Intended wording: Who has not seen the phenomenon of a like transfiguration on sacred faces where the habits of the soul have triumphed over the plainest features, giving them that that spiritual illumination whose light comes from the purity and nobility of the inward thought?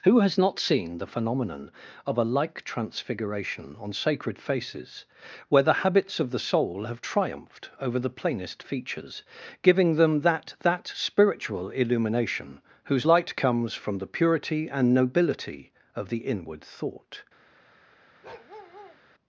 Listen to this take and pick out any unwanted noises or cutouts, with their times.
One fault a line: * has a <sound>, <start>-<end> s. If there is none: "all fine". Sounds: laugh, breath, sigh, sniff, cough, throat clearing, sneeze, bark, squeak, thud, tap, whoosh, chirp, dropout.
* has a bark, 18.2-19.0 s